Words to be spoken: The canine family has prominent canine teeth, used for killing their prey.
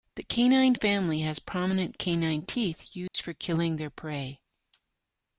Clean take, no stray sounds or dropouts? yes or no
no